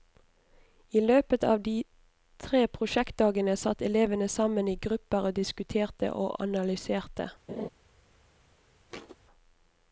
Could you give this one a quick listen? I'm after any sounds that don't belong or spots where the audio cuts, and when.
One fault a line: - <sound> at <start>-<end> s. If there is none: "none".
- laugh at 7.5-7.7 s
- thud at 8.9-9.2 s